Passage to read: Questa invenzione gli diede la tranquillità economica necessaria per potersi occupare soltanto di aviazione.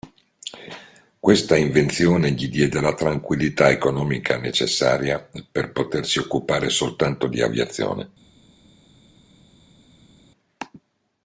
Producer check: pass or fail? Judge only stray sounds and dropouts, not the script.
pass